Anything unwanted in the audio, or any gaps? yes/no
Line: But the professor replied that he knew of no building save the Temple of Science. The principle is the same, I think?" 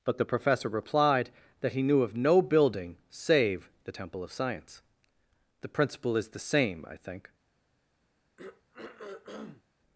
yes